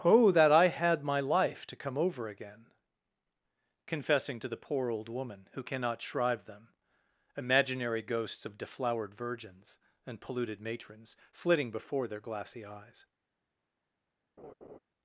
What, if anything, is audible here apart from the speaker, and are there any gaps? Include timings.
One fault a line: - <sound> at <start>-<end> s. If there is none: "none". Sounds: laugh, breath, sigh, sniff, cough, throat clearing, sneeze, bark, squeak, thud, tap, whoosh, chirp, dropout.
- laugh at 14.4-14.8 s